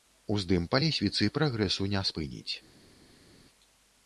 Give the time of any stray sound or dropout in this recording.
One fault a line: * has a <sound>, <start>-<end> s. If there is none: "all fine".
all fine